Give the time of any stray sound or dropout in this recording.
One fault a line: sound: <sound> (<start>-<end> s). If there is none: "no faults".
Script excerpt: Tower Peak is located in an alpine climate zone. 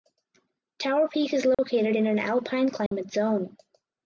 sound: dropout (1.5-1.6 s)
sound: dropout (2.9-2.9 s)